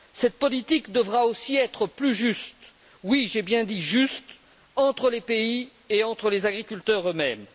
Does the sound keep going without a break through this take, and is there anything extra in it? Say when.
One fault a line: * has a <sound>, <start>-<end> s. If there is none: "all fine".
all fine